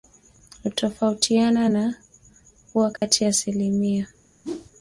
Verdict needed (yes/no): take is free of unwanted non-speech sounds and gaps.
no